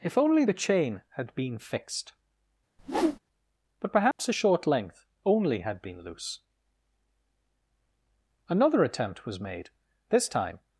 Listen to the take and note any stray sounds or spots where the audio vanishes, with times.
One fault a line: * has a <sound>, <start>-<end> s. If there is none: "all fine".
* has a whoosh, 2.8-3.2 s
* has a dropout, 4.1-4.2 s